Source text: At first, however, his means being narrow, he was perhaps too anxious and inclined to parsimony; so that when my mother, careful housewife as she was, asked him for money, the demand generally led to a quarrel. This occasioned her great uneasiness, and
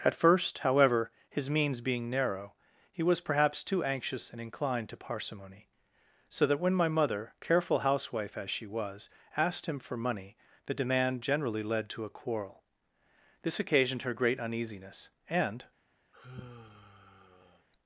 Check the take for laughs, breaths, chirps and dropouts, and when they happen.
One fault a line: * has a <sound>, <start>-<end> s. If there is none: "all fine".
* has a sigh, 16.1-17.7 s